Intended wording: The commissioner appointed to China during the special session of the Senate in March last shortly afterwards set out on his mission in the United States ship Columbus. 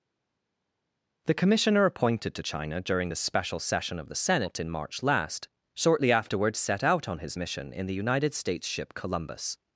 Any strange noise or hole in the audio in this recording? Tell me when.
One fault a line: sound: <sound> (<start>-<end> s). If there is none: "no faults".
no faults